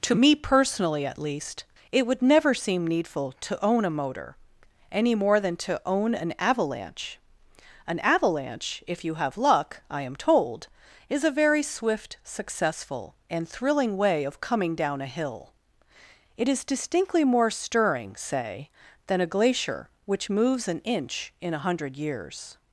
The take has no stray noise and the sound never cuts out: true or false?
true